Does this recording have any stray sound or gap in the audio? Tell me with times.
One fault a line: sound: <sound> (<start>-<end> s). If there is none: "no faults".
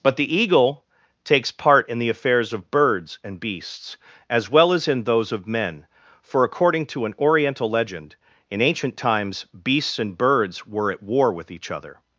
no faults